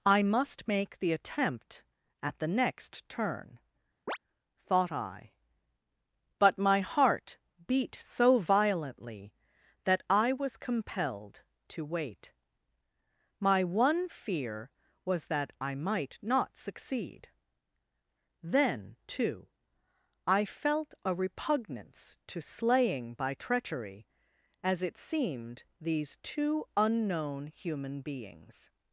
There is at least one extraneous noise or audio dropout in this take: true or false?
true